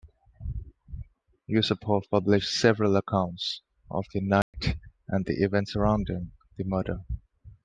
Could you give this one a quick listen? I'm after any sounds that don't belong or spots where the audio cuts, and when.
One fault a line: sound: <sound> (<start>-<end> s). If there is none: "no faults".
sound: dropout (4.4-4.5 s)